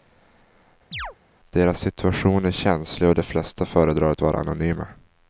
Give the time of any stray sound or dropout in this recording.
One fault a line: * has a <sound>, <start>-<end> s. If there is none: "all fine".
* has a chirp, 0.9-1.2 s